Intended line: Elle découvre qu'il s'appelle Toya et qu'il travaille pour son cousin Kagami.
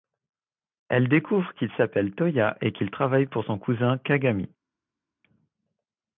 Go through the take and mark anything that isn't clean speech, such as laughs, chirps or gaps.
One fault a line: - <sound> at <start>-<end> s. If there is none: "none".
none